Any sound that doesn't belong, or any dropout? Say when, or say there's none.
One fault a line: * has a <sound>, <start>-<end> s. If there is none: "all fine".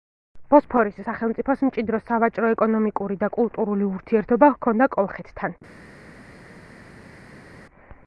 all fine